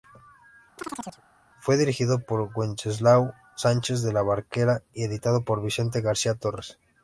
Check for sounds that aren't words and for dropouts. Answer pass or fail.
fail